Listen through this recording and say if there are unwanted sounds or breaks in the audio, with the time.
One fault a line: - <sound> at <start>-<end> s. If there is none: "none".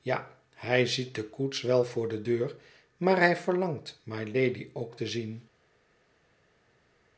none